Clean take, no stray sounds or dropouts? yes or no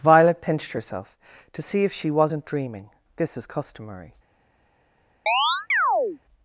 no